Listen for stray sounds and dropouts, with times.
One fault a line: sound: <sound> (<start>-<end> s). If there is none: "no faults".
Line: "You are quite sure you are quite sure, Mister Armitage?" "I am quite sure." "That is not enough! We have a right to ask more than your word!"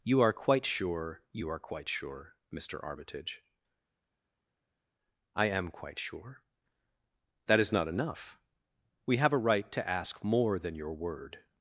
no faults